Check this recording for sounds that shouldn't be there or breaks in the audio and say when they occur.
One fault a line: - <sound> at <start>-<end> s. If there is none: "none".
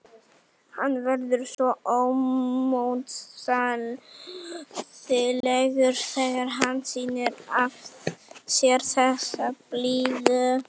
- dropout at 1.5-1.6 s
- dropout at 5.4-5.4 s